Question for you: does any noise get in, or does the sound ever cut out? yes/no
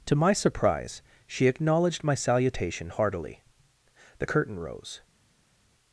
no